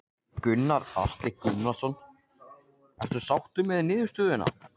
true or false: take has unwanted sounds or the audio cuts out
false